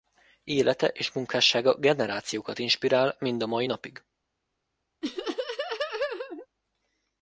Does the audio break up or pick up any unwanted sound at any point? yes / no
yes